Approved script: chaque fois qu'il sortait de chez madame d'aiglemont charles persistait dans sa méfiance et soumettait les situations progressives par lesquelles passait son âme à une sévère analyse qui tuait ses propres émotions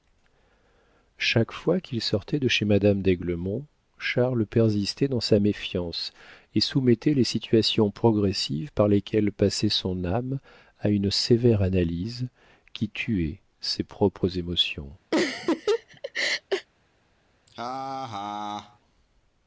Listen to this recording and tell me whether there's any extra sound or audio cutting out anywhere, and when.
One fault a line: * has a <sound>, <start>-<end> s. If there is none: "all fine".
* has a laugh, 15.1-16.7 s
* has a laugh, 17.5-18.8 s